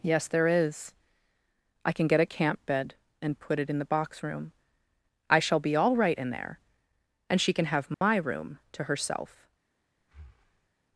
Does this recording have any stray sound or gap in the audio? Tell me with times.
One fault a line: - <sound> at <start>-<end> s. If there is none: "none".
- dropout at 7.9-8.0 s
- breath at 10.0-10.7 s